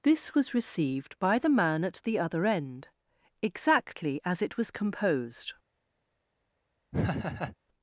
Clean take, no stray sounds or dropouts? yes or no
no